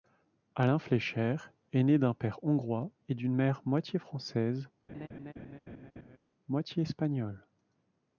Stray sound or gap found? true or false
true